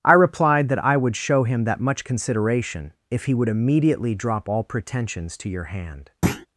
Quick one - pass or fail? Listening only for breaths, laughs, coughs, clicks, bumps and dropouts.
fail